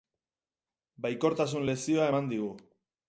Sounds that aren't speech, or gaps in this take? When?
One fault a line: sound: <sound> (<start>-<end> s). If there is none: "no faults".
no faults